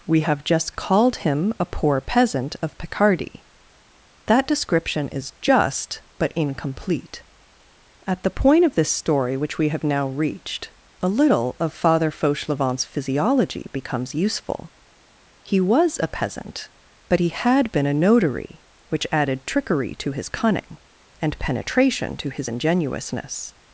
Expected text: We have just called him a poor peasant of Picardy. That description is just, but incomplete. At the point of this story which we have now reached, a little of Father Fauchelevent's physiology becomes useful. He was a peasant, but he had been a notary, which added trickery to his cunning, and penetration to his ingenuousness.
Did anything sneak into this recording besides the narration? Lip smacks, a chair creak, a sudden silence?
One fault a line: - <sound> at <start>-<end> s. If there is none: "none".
none